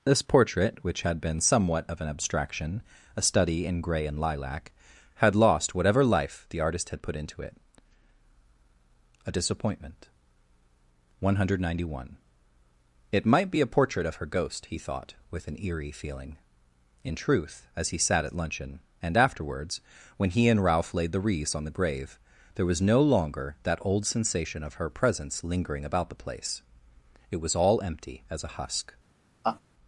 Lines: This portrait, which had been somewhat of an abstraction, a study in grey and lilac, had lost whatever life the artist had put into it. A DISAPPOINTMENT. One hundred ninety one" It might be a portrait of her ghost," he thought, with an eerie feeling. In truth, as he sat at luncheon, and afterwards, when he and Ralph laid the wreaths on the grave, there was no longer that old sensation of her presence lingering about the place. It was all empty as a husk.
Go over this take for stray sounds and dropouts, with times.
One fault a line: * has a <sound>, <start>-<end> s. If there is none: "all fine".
* has a laugh, 29.4-29.6 s